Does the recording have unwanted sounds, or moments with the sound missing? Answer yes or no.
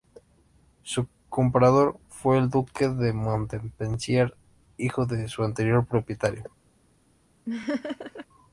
yes